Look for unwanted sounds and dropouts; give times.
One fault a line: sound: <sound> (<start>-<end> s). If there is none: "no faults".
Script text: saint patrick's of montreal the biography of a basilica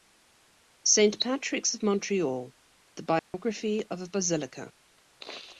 sound: dropout (3.2-3.3 s)